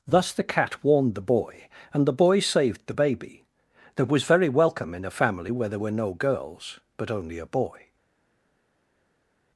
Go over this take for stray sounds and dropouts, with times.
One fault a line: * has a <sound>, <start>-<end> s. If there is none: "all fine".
all fine